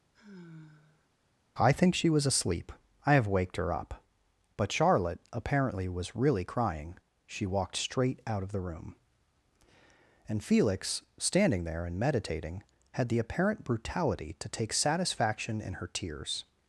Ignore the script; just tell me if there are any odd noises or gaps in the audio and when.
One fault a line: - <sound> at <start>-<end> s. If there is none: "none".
- sigh at 0.1-1.1 s